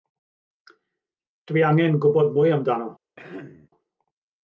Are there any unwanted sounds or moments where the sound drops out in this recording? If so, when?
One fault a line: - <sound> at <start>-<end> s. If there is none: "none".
- throat clearing at 3.2-3.7 s